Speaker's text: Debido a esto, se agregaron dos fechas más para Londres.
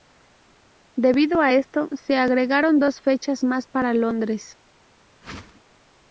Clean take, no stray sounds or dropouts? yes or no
no